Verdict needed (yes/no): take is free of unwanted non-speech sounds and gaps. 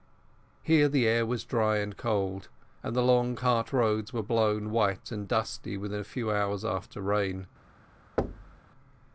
no